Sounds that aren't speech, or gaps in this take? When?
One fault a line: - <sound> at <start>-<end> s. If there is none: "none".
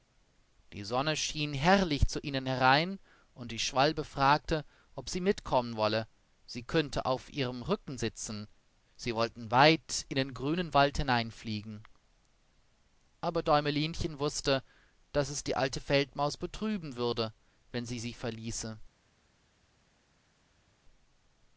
none